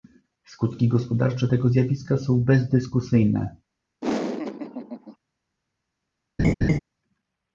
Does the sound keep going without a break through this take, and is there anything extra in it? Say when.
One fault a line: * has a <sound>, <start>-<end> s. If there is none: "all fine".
* has a laugh, 4.0-5.2 s
* has a laugh, 6.4-6.8 s